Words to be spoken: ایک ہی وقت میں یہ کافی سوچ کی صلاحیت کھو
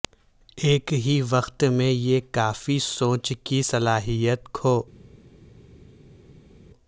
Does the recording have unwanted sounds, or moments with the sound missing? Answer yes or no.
no